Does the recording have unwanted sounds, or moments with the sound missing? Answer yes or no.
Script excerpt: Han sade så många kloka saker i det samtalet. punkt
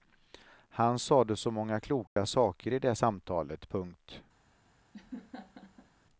yes